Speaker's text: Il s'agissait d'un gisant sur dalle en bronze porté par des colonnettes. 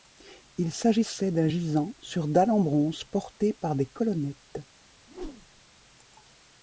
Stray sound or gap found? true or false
true